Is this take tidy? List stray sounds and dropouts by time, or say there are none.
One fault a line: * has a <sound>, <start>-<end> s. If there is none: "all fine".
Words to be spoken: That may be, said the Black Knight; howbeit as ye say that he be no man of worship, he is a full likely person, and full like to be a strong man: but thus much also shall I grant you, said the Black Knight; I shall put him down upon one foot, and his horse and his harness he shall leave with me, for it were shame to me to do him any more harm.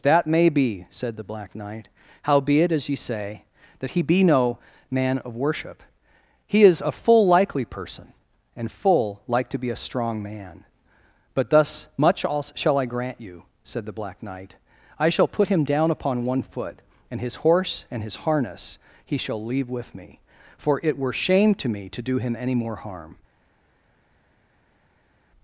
all fine